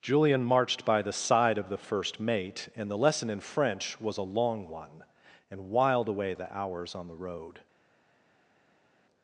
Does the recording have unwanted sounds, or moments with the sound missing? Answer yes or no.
no